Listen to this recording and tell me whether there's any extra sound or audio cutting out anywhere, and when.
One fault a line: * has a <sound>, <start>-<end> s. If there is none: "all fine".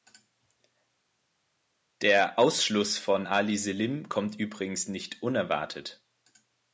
all fine